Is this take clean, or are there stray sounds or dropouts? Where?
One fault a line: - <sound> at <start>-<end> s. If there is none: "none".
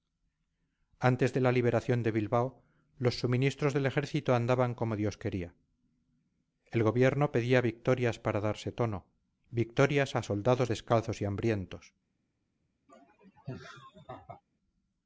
- laugh at 12.9-14.4 s